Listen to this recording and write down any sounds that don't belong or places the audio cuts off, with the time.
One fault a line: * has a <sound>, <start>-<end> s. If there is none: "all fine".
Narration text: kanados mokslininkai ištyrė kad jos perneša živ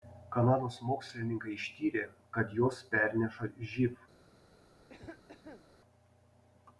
* has a cough, 4.9-5.7 s